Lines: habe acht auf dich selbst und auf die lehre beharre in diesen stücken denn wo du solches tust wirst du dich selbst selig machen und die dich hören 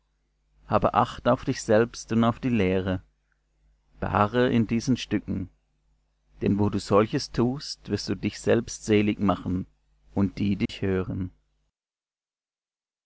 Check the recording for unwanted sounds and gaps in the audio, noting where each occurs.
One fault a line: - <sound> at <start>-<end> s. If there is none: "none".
- dropout at 10.7-10.7 s